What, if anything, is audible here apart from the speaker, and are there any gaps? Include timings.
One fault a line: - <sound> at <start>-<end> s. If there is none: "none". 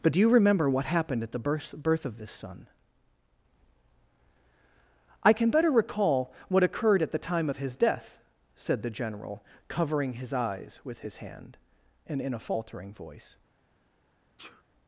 - sneeze at 14.4-14.6 s